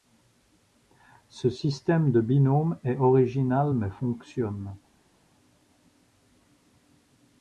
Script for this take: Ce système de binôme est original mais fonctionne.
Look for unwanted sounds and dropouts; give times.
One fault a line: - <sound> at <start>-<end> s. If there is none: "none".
none